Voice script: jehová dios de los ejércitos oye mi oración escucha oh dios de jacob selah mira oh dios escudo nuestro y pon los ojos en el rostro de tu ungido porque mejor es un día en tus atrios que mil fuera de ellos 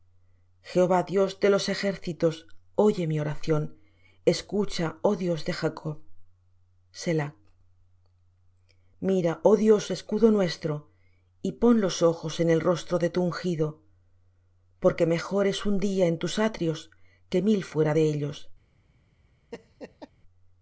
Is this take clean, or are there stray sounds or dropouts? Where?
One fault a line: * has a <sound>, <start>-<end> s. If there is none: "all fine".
* has a laugh, 19.5-20.1 s